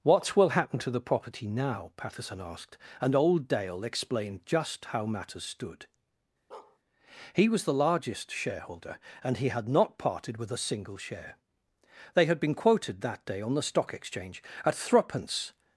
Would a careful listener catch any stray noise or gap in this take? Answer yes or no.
yes